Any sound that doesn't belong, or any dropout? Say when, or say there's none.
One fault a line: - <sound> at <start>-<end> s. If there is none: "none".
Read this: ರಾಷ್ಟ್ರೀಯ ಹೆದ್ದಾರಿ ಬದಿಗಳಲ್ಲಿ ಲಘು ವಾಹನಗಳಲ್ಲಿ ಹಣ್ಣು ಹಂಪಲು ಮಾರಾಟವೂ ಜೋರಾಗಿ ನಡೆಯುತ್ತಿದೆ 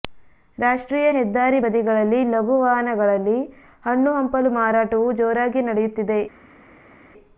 none